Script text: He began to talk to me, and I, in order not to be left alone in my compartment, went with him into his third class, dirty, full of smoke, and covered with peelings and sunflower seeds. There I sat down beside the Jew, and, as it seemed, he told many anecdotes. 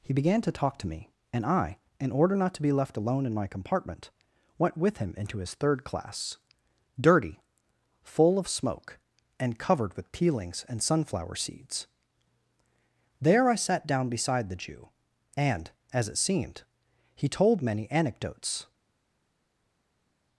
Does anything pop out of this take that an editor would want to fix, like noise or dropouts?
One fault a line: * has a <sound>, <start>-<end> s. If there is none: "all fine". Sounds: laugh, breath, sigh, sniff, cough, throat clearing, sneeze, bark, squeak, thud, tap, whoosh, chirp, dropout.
all fine